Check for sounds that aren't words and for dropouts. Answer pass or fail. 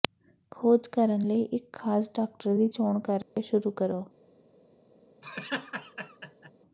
fail